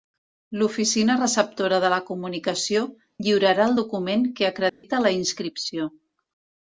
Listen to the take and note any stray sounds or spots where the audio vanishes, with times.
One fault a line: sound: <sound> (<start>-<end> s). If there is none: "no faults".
sound: dropout (4.7-4.8 s)